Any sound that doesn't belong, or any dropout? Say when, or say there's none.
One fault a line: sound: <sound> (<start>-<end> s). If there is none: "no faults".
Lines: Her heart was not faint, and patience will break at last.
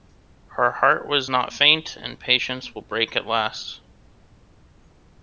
no faults